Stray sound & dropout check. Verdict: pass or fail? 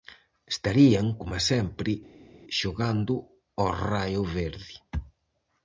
pass